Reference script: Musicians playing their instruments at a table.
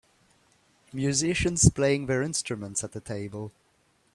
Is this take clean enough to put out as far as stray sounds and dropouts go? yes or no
yes